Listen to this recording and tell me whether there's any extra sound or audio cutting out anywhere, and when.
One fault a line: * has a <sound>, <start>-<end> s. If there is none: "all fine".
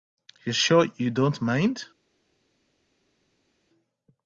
all fine